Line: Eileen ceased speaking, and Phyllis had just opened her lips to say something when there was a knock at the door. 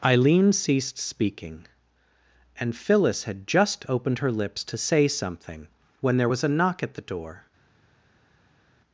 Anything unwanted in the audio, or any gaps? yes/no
no